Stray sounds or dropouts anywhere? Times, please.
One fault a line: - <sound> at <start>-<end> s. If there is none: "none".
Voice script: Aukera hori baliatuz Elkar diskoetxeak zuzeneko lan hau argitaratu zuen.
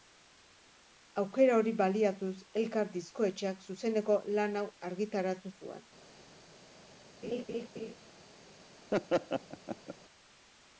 - laugh at 7.2-7.9 s
- laugh at 8.9-9.9 s